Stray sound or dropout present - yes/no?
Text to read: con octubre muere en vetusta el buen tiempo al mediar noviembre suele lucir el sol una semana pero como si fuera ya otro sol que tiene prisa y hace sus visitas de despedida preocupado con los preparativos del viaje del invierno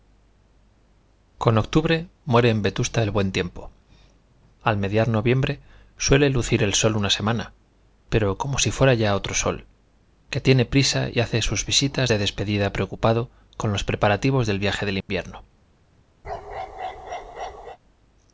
yes